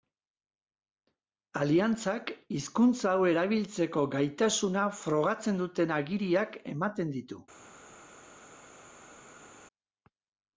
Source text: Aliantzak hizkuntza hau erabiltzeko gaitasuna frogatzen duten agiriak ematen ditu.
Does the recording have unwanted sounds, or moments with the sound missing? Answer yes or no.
no